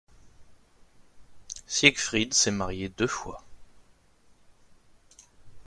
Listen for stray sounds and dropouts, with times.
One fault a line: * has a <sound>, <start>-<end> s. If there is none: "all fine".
all fine